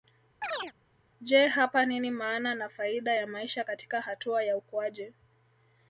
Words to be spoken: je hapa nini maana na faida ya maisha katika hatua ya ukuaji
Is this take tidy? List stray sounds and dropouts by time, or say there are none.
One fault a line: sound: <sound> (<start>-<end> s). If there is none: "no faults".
sound: chirp (0.4-0.7 s)